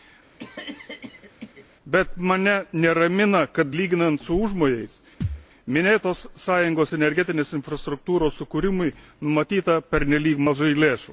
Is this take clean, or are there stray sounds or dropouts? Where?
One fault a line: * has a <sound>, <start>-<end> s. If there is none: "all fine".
* has a cough, 0.4-1.7 s
* has a thud, 5.2-5.5 s